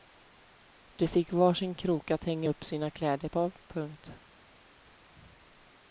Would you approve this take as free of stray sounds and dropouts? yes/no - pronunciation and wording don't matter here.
yes